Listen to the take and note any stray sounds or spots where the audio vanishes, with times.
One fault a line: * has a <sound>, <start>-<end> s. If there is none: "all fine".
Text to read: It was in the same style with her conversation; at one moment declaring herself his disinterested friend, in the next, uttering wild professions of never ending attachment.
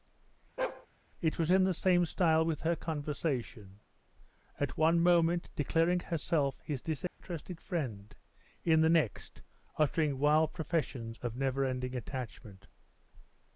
* has a bark, 0.6-0.9 s
* has a dropout, 7.1-7.2 s